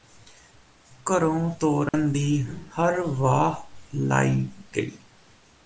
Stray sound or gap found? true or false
true